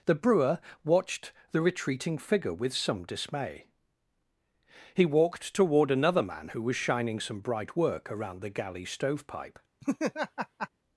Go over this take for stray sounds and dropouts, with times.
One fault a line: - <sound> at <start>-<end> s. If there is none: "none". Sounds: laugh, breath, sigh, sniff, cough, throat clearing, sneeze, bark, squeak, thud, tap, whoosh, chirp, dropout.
- laugh at 9.8-10.7 s